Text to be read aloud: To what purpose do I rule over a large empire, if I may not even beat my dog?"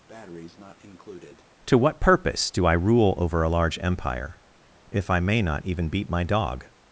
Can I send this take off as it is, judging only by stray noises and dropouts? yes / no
no